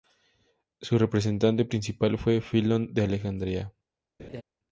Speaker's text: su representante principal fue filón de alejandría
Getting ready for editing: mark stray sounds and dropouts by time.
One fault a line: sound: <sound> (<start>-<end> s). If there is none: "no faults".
sound: laugh (4.2-4.4 s)